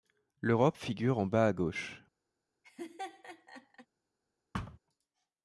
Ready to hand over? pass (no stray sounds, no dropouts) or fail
fail